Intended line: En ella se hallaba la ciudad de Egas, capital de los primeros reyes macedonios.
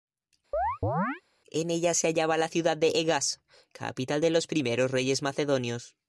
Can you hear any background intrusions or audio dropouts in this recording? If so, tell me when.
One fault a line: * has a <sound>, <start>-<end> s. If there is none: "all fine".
* has a chirp, 0.5-1.2 s